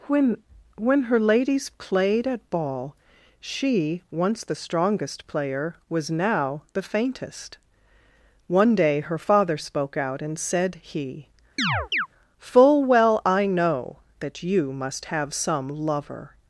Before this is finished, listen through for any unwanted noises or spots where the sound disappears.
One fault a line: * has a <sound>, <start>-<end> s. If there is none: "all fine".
* has a chirp, 11.6-12.1 s